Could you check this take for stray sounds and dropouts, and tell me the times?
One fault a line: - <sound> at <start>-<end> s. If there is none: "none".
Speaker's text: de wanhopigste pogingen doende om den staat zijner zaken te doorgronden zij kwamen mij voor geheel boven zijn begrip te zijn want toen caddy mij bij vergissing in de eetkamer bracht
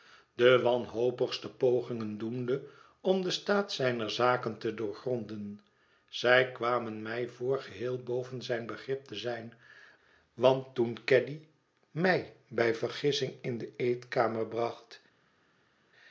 none